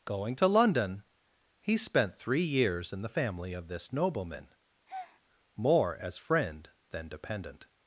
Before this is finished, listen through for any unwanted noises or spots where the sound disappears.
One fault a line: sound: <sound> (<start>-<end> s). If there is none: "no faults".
sound: breath (4.9-5.2 s)